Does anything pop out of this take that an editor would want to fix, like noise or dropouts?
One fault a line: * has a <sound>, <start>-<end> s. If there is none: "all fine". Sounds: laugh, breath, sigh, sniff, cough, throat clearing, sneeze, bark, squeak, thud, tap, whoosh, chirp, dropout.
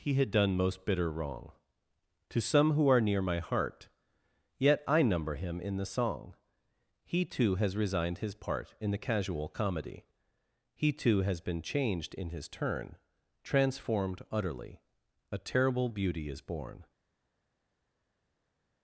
all fine